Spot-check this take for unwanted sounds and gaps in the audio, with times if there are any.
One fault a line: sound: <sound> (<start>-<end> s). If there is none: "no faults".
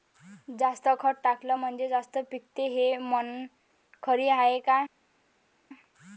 no faults